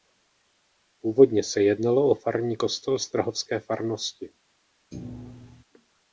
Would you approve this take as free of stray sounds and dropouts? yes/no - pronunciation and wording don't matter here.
no